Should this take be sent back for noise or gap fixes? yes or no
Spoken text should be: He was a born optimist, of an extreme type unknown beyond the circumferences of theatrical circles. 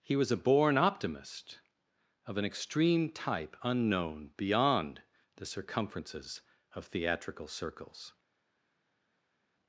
no